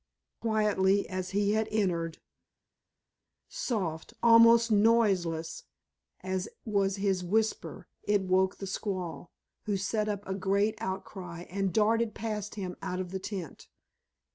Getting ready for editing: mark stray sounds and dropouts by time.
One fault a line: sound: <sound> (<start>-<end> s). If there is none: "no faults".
no faults